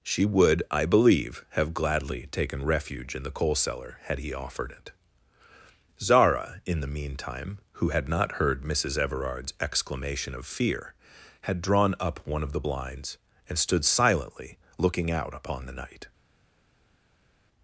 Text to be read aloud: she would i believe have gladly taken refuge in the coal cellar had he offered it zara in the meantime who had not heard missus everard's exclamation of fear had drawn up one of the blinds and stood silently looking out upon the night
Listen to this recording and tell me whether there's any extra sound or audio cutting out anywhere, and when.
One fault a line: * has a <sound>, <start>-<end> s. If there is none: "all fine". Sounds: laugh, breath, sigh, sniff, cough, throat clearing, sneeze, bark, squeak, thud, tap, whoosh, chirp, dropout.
all fine